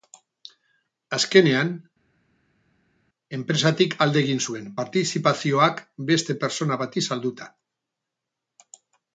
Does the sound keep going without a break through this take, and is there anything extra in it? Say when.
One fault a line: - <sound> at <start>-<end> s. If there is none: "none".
none